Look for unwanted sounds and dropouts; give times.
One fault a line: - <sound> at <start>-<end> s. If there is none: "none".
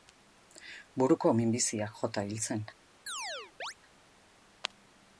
- chirp at 3.1-3.7 s